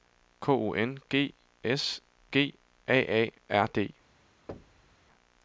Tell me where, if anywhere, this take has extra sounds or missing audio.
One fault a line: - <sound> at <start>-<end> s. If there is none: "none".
- thud at 4.5-5.0 s